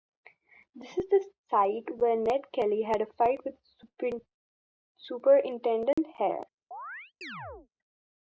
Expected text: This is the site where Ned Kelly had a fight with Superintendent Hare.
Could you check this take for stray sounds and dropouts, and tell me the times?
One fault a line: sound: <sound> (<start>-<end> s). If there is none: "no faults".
sound: dropout (5.9-6.0 s)
sound: chirp (6.7-7.7 s)